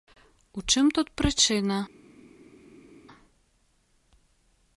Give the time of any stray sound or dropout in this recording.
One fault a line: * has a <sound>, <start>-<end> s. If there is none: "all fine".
all fine